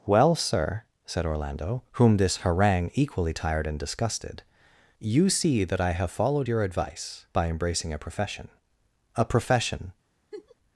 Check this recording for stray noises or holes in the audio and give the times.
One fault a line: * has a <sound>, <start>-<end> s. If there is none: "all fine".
* has a laugh, 10.3-10.6 s